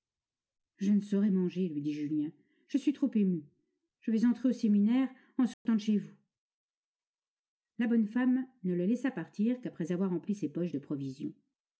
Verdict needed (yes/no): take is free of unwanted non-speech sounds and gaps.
no